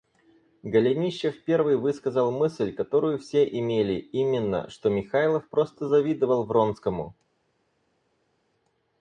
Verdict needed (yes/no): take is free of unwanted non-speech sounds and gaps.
yes